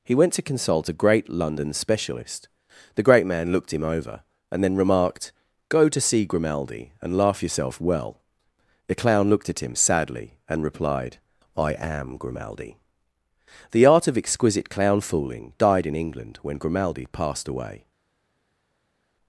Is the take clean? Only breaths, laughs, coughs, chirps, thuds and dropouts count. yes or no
yes